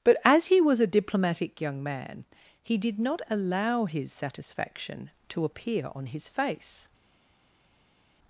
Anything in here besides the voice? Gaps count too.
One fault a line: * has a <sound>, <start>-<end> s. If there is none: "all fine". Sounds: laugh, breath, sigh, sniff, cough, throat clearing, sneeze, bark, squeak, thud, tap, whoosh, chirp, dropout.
all fine